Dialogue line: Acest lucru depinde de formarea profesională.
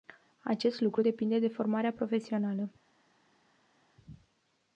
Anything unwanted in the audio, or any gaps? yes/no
no